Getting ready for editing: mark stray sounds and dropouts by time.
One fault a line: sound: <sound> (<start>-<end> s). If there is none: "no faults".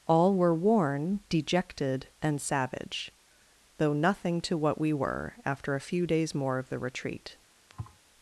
sound: thud (7.7-8.0 s)